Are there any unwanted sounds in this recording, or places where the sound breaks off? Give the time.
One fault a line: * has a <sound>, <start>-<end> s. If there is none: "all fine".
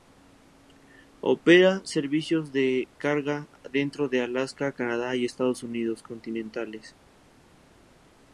all fine